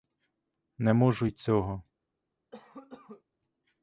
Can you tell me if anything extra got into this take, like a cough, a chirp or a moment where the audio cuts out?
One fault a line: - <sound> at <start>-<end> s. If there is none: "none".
- cough at 2.5-3.2 s